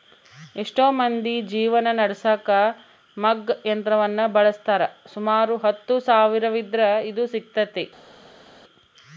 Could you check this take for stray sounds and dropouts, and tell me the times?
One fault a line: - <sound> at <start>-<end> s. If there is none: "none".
none